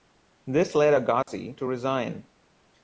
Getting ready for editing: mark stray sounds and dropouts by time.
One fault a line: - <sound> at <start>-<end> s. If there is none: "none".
- dropout at 1.2-1.3 s